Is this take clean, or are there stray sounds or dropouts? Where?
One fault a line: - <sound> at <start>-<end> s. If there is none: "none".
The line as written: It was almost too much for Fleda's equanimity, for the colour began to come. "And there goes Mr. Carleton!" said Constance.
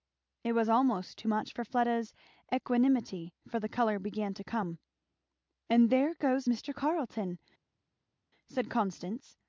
none